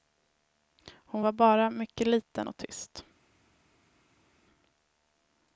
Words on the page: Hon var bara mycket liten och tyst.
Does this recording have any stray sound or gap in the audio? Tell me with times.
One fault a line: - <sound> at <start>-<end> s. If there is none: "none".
none